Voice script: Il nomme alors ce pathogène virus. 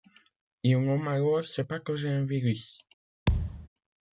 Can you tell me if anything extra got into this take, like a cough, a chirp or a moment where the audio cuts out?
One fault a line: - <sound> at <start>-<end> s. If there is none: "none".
- thud at 3.3-3.7 s